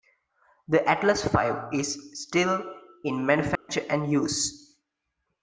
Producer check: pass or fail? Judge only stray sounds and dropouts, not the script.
fail